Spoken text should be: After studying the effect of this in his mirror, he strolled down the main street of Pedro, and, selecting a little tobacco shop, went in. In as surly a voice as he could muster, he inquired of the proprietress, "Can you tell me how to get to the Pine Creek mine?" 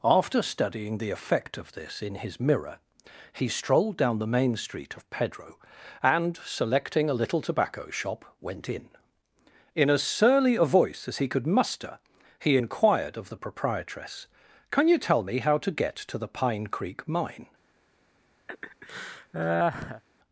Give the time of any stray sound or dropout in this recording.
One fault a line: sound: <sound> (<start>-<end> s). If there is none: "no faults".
sound: laugh (18.5-20.0 s)